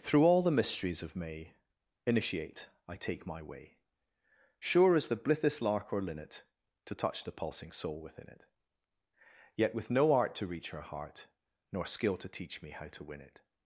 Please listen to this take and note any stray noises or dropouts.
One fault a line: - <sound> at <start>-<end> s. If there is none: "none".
none